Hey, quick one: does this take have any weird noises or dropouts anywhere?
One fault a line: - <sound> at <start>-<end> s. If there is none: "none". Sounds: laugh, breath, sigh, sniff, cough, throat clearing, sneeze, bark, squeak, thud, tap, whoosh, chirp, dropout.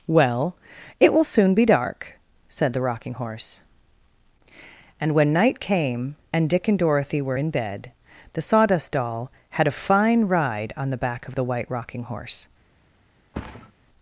- thud at 13.3-13.7 s